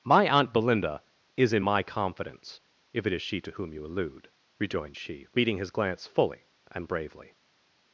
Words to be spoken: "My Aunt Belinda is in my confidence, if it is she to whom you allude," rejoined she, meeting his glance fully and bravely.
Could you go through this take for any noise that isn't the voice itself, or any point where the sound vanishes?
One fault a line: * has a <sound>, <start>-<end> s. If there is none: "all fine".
all fine